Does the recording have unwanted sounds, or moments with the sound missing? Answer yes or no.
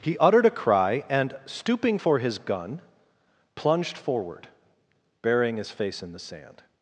no